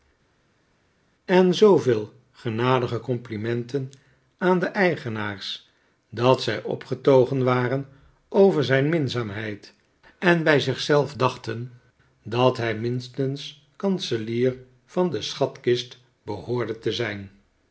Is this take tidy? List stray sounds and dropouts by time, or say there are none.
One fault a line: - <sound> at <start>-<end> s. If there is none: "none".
none